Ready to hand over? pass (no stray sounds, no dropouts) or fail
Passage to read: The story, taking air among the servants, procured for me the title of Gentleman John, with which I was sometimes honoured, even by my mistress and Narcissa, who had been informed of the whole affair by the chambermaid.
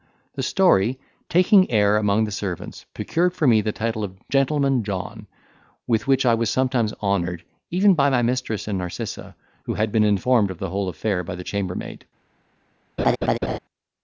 fail